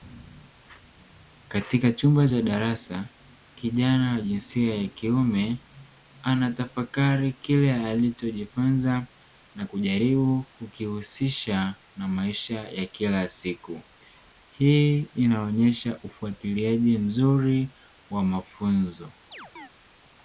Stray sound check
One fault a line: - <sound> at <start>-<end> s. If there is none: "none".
- chirp at 19.3-19.7 s